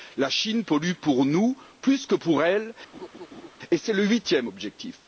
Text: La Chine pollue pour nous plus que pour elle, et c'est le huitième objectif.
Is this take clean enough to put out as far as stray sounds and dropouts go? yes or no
no